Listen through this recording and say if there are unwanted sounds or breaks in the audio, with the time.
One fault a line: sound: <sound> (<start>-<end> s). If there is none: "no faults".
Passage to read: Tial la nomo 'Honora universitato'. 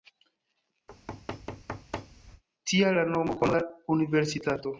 sound: thud (0.9-2.4 s)